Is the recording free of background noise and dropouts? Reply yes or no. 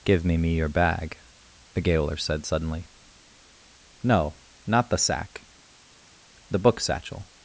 yes